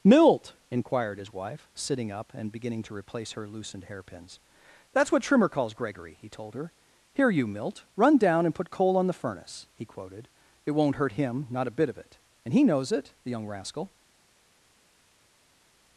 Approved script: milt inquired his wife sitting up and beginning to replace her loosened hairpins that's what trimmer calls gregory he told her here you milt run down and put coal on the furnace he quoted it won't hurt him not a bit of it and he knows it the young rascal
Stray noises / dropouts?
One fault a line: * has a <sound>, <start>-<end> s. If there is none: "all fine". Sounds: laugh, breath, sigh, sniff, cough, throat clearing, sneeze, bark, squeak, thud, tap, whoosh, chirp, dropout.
all fine